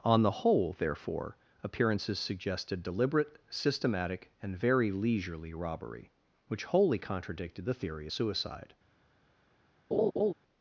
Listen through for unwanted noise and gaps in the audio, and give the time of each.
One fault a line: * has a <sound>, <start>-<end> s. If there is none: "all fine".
* has a laugh, 9.9-10.3 s